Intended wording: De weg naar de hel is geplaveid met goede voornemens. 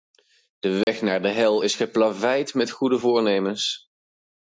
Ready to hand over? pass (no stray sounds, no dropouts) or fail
fail